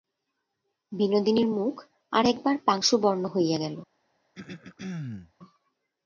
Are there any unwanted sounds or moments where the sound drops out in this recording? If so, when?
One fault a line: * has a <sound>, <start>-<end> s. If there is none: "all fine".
* has a throat clearing, 4.3-5.3 s